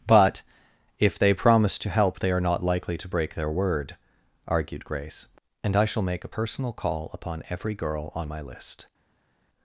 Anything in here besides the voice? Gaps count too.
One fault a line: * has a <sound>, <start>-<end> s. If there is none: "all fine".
all fine